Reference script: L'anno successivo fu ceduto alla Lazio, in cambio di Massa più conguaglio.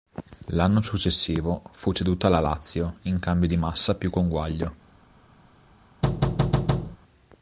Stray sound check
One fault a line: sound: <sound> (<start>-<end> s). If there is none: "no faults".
sound: thud (6.0-7.0 s)